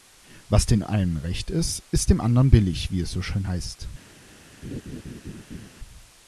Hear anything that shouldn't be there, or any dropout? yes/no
yes